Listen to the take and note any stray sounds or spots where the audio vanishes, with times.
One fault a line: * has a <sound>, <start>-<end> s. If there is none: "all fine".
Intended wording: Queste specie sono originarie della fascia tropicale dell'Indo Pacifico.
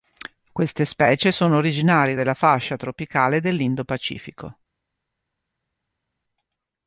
all fine